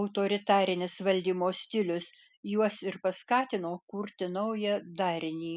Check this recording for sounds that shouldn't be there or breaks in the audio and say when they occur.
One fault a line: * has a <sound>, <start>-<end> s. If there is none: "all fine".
all fine